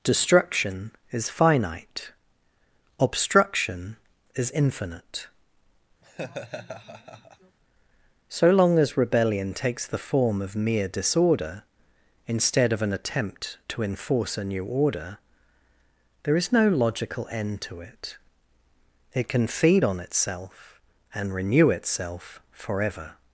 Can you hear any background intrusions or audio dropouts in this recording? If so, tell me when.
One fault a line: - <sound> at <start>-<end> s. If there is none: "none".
- laugh at 6.0-7.6 s